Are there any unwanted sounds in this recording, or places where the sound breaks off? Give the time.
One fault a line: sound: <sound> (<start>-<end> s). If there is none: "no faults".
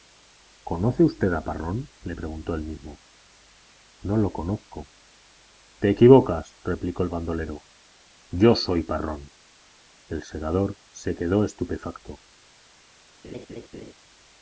sound: laugh (13.2-13.9 s)